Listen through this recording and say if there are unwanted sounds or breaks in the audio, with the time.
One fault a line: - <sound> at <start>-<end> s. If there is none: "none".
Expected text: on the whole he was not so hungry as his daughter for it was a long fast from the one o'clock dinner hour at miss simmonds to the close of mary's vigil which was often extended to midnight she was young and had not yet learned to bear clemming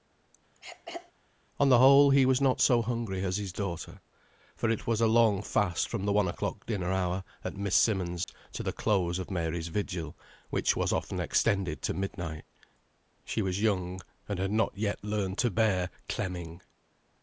- throat clearing at 0.5-1.1 s
- dropout at 8.2-8.3 s